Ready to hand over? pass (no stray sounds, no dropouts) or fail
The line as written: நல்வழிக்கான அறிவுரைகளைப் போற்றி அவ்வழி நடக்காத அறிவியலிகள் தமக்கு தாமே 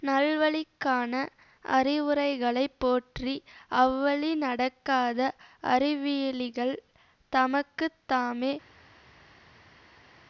pass